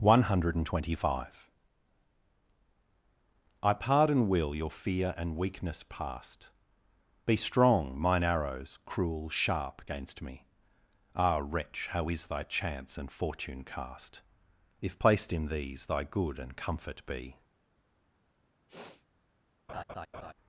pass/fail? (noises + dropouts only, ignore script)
fail